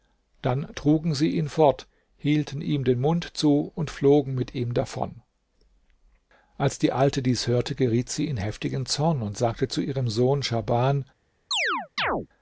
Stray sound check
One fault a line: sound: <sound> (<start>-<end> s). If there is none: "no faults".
sound: chirp (11.5-12.3 s)